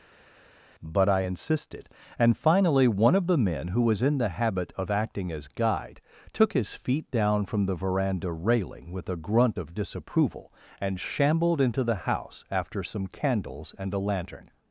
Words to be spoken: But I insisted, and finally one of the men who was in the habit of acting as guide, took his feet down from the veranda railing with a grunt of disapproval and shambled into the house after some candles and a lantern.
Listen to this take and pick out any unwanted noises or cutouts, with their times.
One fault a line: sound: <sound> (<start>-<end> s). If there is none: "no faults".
no faults